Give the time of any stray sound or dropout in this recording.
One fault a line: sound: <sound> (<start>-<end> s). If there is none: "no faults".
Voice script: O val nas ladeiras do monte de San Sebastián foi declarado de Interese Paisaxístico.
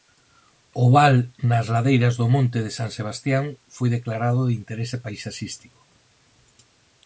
no faults